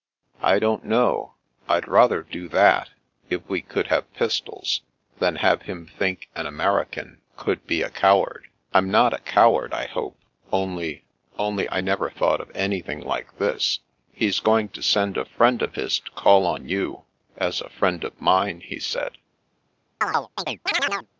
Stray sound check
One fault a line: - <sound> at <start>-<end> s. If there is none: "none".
- chirp at 20.0-21.1 s